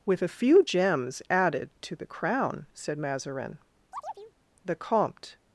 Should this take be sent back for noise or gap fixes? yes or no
yes